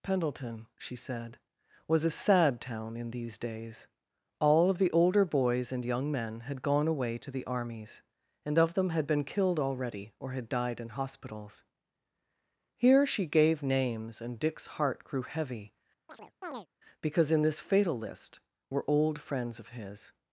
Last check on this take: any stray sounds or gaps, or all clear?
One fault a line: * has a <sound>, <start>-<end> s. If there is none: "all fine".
* has a chirp, 16.1-16.7 s